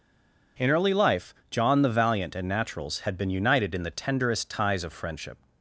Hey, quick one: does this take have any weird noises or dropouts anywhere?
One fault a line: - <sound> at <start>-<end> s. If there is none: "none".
none